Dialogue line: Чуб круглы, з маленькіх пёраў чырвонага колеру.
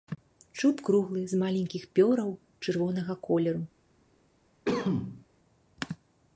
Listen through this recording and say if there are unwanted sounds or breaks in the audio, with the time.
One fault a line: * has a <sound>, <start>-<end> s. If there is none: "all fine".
* has a cough, 4.6-5.3 s